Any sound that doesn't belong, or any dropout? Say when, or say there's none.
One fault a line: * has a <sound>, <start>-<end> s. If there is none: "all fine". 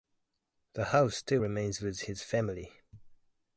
all fine